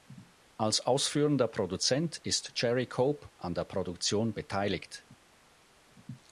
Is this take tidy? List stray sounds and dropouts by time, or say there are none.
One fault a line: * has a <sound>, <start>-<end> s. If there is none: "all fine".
all fine